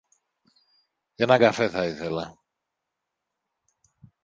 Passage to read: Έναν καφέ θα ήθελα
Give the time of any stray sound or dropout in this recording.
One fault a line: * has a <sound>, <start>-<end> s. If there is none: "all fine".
all fine